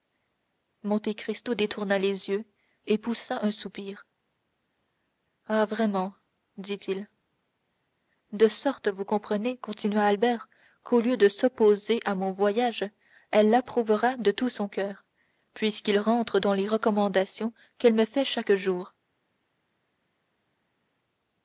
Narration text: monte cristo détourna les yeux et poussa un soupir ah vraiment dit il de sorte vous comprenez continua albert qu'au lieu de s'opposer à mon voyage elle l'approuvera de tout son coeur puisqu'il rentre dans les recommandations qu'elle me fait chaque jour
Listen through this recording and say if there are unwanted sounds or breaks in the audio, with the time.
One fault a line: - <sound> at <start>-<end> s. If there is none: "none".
none